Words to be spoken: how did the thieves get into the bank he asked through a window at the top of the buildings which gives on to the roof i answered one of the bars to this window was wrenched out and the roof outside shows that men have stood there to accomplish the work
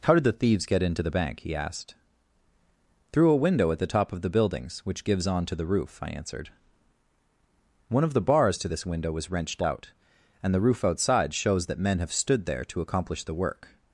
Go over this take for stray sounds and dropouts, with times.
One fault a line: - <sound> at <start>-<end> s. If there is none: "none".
none